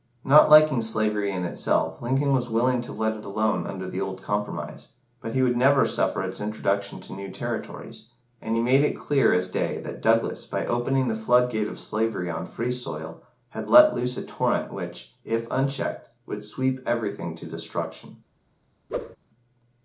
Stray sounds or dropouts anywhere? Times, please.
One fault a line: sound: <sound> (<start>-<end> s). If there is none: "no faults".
sound: whoosh (18.9-19.2 s)